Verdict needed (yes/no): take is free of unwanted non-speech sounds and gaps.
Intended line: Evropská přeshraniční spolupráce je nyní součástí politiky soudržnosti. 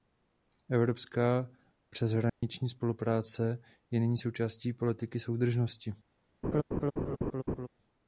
no